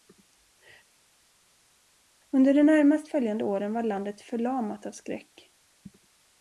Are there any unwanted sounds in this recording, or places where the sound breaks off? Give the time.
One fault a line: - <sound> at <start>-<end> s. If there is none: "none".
none